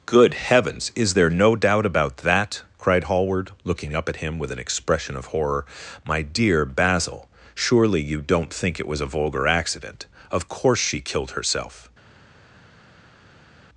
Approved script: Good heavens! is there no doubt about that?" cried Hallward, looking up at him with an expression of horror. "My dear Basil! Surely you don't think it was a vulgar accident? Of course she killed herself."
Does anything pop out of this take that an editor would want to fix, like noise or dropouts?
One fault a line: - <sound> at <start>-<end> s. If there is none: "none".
none